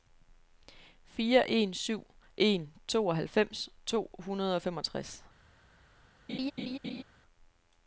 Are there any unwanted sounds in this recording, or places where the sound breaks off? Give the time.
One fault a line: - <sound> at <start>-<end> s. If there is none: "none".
- laugh at 6.3-7.0 s